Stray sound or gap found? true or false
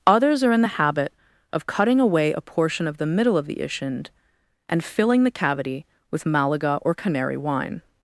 false